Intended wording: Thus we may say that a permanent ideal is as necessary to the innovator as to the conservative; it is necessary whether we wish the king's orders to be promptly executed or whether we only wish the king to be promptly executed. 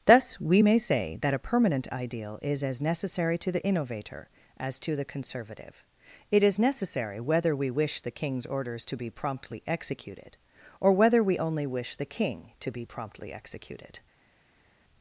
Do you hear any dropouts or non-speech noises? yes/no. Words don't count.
no